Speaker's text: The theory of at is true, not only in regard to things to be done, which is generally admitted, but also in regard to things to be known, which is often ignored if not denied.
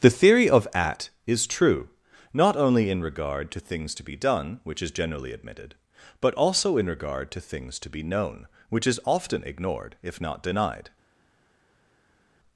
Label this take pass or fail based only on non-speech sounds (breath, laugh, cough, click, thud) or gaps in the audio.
pass